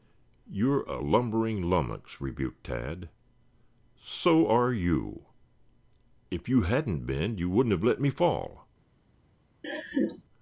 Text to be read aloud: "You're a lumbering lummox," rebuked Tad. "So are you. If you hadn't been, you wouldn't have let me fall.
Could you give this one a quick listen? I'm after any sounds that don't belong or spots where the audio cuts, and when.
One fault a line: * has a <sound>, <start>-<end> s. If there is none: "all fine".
* has a laugh, 9.6-10.2 s